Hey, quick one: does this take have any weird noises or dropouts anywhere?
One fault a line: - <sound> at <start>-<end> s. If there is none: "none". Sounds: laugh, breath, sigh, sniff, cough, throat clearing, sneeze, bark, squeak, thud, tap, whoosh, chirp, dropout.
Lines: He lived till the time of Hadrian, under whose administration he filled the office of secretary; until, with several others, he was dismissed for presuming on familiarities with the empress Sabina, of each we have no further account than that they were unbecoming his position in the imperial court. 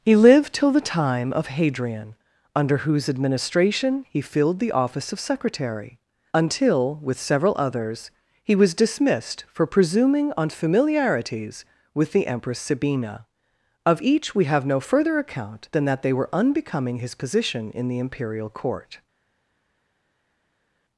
none